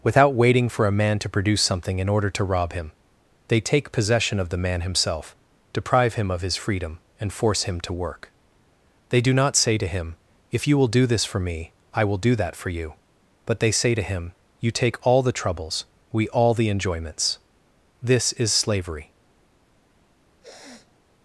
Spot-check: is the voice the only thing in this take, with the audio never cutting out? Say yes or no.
no